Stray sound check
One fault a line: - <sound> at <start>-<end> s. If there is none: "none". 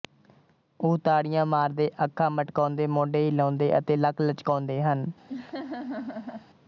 - laugh at 5.3-6.5 s